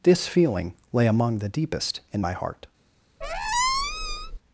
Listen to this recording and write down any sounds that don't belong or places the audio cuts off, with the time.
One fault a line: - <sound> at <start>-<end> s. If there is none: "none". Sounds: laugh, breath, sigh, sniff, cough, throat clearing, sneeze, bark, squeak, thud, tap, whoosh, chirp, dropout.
- squeak at 3.2-4.4 s